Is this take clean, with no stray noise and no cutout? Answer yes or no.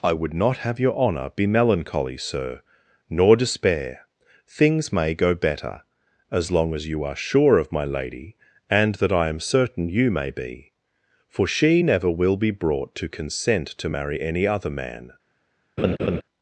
no